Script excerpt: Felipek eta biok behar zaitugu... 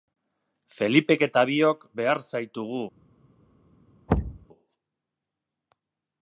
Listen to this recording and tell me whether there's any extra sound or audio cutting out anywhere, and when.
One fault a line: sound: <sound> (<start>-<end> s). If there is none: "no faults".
sound: thud (4.1-4.5 s)